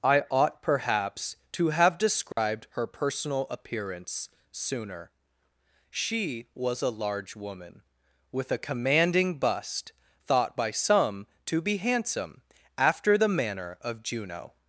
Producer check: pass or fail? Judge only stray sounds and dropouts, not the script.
fail